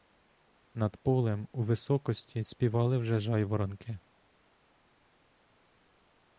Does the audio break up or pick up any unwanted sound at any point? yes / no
no